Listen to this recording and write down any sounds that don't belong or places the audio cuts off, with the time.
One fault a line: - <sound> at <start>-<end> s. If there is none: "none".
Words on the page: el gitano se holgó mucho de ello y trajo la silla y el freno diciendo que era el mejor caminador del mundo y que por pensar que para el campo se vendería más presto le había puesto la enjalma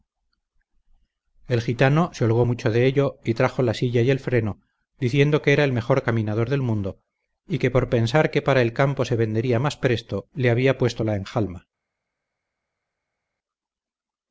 none